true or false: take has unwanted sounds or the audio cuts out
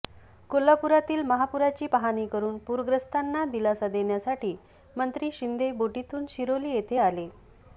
false